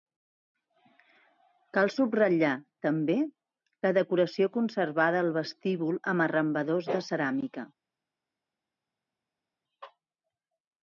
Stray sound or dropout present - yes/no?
no